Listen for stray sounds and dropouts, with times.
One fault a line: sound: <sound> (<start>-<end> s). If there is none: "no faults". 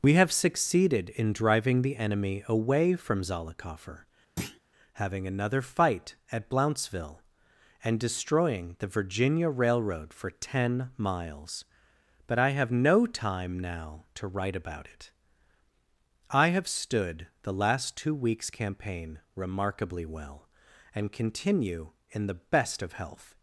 sound: thud (4.4-4.6 s)